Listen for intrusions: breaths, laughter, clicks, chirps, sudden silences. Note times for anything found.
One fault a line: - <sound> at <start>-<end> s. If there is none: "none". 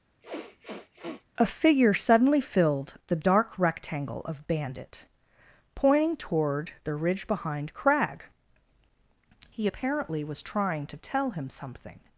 - sniff at 0.2-1.3 s